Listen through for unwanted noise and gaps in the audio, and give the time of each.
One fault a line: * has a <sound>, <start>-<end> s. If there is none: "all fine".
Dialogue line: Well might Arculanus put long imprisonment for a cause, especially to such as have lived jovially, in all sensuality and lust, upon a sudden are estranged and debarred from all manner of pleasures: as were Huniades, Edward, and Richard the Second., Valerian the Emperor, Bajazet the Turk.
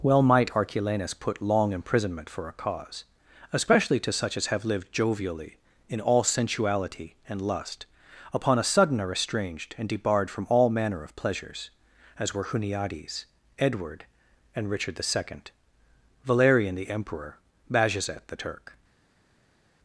all fine